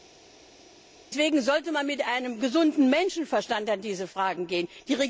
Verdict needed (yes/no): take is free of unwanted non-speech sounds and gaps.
yes